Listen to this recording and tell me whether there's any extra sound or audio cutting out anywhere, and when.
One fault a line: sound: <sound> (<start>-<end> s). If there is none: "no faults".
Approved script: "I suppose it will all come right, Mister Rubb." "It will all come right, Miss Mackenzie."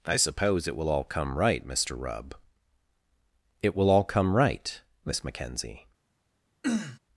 sound: throat clearing (6.6-7.0 s)